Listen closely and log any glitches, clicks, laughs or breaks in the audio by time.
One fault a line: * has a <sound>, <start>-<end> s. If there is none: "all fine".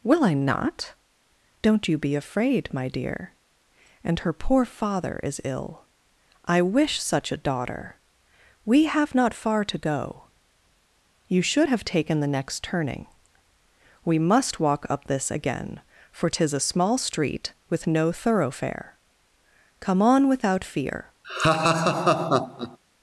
* has a laugh, 21.2-22.8 s